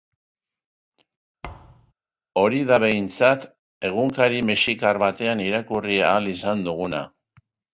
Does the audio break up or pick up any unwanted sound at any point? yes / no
yes